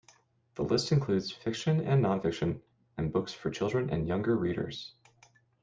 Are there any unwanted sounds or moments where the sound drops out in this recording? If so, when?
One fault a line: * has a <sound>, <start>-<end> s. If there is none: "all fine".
all fine